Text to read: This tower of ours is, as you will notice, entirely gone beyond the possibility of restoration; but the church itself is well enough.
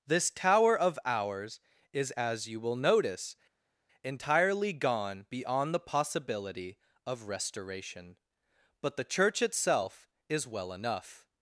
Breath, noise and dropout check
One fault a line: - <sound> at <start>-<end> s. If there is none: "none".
none